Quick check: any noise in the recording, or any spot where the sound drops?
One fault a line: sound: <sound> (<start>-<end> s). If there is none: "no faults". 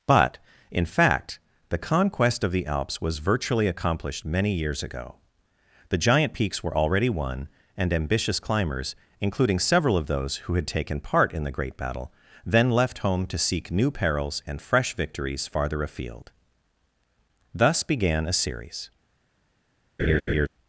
sound: laugh (20.0-20.5 s)